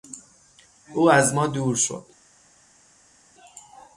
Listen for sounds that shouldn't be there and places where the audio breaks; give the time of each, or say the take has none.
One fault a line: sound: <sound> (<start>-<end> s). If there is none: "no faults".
no faults